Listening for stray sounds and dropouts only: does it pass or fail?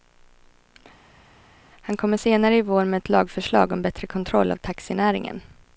pass